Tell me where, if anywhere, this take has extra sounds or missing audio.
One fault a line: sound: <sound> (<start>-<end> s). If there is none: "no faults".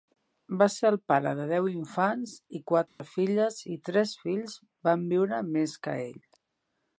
sound: dropout (2.9-3.0 s)